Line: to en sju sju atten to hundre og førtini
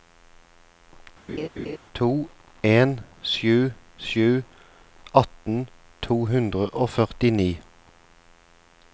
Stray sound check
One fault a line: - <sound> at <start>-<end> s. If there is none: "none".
- laugh at 1.3-1.8 s